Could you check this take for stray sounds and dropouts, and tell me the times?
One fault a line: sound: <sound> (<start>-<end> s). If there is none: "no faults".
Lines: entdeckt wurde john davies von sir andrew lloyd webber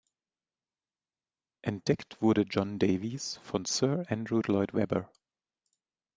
no faults